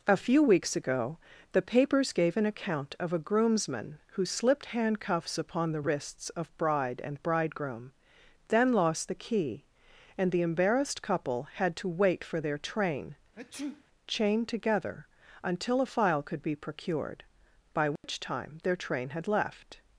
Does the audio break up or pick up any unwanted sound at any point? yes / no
yes